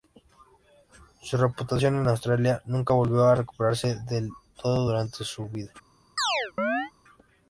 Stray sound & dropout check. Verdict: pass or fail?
fail